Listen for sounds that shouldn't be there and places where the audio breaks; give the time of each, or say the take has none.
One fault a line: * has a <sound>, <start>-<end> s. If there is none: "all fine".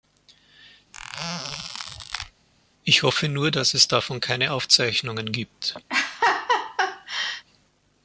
* has a squeak, 0.9-2.3 s
* has a laugh, 5.9-7.4 s